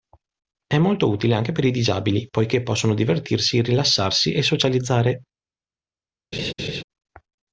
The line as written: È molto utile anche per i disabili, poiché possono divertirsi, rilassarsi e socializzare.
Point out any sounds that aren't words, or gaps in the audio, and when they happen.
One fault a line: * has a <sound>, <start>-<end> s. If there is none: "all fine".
* has a laugh, 6.3-6.8 s